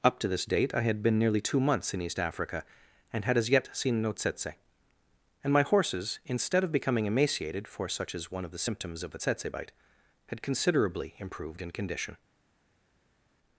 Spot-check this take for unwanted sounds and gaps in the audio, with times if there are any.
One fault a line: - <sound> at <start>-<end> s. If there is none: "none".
none